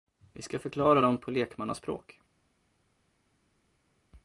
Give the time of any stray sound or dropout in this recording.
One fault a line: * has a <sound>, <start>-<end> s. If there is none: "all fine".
all fine